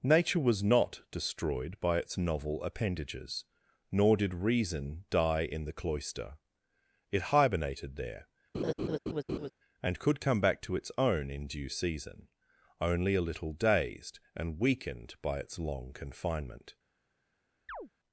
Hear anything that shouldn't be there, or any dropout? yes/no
yes